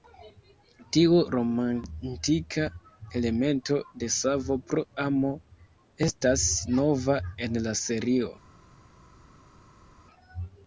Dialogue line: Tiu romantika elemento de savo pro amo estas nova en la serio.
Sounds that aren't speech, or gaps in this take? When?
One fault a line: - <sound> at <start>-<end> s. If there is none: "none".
none